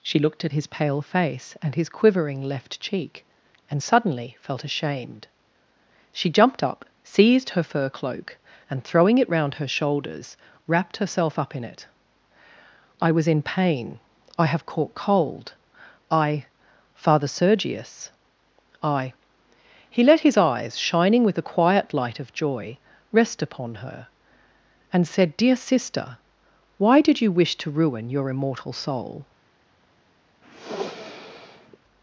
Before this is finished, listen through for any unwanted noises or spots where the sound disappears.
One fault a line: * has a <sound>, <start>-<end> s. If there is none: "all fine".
* has a sniff, 30.4-31.8 s